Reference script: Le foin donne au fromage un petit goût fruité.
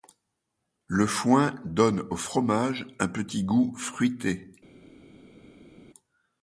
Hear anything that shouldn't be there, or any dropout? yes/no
no